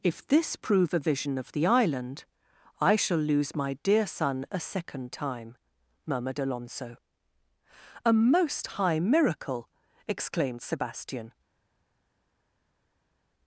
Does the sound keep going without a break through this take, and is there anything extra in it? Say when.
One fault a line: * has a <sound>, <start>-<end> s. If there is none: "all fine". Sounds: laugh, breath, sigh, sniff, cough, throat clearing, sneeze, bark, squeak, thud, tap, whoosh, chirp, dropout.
all fine